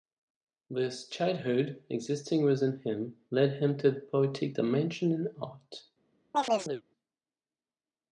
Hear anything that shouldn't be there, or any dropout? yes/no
yes